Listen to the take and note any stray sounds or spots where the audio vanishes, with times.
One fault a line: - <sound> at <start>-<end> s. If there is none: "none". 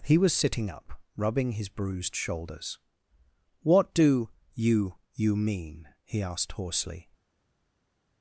none